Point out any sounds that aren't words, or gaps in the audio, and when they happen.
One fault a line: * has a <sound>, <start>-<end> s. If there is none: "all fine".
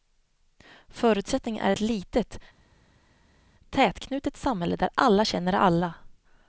all fine